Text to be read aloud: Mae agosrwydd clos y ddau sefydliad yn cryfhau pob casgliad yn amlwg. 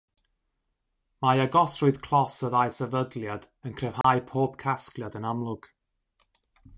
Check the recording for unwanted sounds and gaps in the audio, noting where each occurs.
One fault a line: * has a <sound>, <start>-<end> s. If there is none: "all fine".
* has a dropout, 4.0-4.0 s